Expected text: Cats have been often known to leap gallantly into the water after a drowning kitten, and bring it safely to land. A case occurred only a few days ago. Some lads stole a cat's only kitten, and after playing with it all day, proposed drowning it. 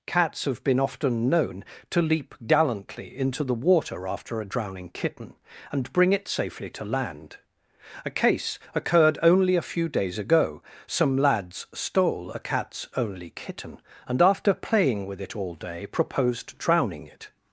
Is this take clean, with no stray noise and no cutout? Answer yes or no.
yes